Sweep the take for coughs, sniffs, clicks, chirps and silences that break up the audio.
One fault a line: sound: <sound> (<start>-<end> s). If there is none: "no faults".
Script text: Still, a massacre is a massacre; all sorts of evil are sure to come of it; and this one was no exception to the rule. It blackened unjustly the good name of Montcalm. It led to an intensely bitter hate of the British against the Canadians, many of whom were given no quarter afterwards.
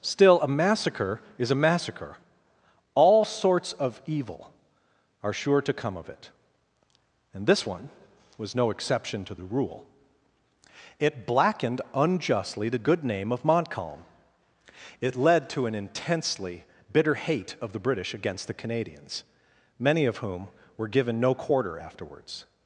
no faults